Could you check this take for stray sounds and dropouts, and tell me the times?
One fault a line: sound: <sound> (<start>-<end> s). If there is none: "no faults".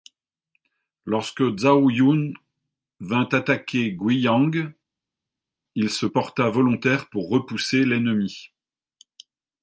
no faults